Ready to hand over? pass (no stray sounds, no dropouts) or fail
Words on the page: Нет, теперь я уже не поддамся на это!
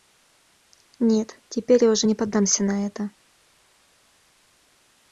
pass